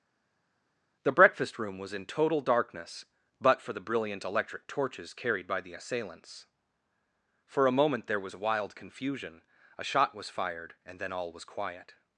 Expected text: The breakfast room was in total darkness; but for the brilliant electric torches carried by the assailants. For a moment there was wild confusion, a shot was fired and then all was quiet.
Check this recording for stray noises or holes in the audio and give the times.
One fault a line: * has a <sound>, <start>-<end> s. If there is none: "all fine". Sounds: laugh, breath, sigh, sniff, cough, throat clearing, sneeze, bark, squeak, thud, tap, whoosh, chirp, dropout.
all fine